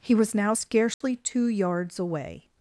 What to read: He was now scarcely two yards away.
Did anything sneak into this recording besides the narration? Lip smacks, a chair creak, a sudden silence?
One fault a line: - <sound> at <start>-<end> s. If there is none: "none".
- dropout at 0.9-1.0 s